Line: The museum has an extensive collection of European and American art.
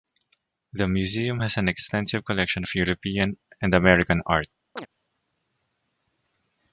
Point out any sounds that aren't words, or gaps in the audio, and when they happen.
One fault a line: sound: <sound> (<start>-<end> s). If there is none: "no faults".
sound: chirp (4.8-4.9 s)